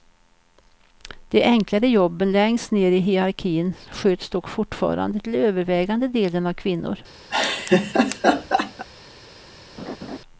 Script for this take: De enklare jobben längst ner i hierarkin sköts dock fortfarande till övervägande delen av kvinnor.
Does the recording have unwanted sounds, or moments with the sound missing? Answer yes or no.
yes